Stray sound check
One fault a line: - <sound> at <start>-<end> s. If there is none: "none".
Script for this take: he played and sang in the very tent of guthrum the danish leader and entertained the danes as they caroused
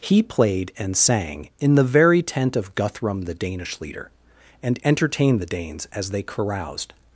none